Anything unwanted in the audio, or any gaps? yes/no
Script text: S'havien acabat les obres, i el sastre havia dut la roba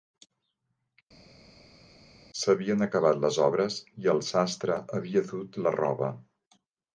no